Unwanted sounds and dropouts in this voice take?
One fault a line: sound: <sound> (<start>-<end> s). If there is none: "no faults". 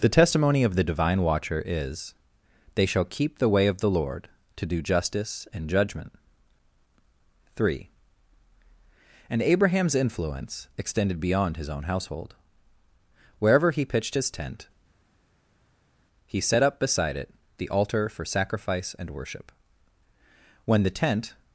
no faults